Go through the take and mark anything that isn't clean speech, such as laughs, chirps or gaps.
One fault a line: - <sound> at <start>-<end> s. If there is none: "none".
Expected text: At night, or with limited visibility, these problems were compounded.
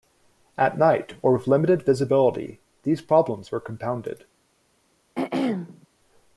- throat clearing at 5.1-5.9 s